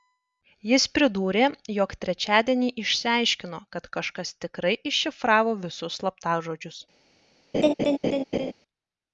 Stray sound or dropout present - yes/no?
yes